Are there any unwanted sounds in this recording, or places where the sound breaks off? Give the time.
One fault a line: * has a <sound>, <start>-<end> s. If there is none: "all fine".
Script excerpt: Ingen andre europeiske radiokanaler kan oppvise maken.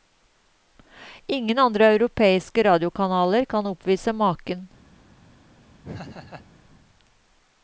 * has a laugh, 5.8-6.5 s